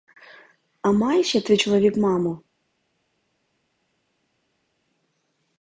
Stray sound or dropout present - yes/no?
no